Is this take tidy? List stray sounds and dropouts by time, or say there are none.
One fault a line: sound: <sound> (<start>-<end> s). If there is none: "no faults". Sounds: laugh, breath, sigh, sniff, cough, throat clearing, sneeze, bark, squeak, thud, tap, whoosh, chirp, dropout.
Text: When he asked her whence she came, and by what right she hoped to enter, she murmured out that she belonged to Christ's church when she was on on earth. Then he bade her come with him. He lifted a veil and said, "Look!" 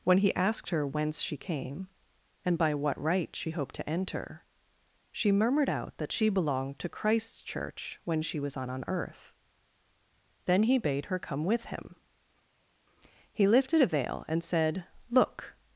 no faults